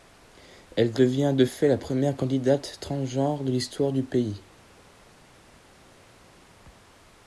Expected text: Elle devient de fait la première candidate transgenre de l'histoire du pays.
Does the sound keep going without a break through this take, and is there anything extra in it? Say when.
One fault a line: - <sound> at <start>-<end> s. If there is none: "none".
none